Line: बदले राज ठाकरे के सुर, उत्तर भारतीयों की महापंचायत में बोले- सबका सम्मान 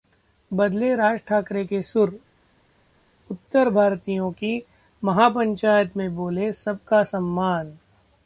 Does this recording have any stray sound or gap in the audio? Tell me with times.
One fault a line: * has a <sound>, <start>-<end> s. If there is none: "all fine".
all fine